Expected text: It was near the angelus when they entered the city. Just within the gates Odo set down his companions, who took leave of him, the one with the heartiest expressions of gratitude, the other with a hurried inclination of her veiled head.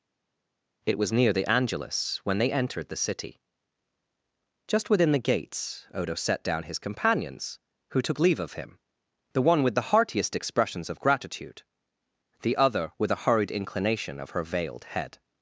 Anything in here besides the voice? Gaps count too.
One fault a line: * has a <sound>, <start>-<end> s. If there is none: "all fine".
all fine